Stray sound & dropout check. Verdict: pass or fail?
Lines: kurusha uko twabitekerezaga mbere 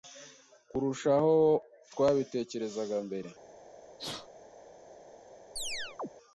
fail